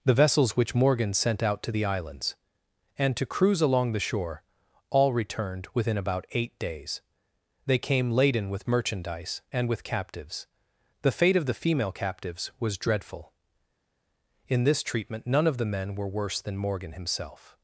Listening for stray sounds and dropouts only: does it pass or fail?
pass